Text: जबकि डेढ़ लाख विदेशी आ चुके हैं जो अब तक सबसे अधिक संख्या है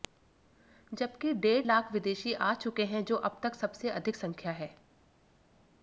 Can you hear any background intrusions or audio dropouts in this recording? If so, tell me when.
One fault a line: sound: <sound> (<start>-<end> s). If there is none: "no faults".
no faults